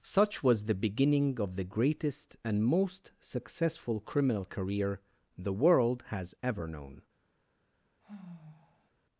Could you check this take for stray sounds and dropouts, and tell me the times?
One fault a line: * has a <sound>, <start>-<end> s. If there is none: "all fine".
* has a sigh, 8.0-8.9 s